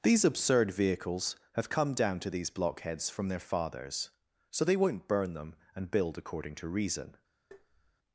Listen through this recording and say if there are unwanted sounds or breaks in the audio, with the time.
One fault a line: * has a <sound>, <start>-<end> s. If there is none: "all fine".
* has a tap, 7.5-8.0 s